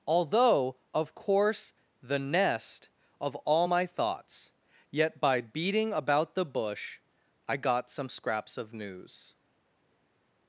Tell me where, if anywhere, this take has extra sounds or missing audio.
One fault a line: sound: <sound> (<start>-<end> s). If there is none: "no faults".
no faults